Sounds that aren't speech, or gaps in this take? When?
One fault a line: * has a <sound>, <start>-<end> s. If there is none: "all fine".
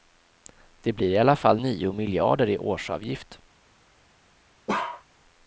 * has a bark, 4.7-5.0 s